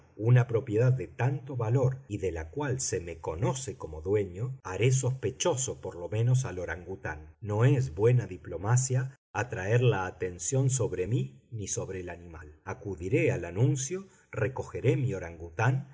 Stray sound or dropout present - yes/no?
no